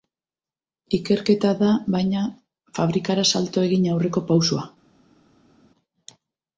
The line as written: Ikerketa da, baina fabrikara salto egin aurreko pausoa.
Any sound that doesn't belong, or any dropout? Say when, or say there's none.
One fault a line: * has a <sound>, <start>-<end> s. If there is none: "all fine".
all fine